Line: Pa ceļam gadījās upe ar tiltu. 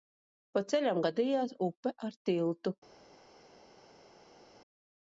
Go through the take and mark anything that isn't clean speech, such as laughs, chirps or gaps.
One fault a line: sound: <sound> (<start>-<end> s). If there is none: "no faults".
no faults